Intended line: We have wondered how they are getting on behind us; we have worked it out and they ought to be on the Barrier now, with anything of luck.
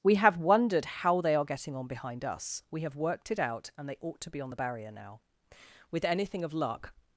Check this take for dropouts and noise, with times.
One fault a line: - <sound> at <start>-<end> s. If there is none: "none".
none